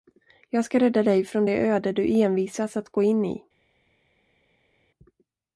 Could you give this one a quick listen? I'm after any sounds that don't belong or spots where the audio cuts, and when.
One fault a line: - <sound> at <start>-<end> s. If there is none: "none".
none